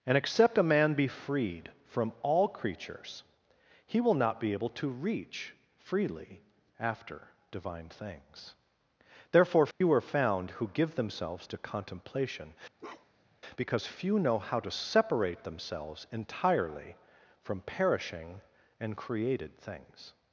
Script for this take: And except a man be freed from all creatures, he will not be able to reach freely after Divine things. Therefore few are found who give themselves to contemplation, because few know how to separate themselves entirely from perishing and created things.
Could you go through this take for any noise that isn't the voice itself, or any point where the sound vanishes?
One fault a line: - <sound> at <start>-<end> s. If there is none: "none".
- dropout at 9.7-9.8 s
- bark at 12.8-13.4 s